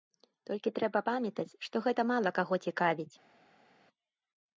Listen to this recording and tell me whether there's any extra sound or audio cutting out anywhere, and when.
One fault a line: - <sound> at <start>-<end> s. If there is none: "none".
none